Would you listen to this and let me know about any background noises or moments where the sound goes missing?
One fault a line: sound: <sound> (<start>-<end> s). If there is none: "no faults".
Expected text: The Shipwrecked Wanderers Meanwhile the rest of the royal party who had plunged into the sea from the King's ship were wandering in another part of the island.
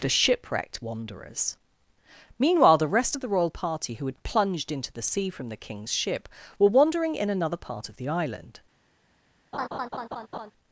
sound: laugh (9.5-10.5 s)